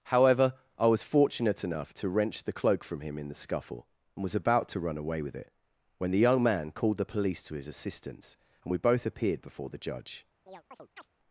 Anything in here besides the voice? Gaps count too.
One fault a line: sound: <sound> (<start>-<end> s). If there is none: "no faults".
sound: chirp (10.5-11.1 s)